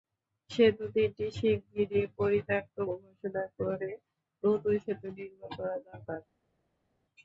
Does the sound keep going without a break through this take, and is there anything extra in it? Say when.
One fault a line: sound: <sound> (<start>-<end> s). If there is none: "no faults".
no faults